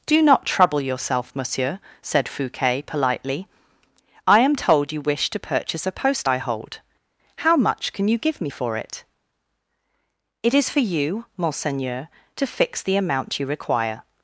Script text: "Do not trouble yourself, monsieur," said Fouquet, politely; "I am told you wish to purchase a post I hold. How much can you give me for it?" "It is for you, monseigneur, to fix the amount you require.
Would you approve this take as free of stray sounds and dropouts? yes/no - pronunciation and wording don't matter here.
yes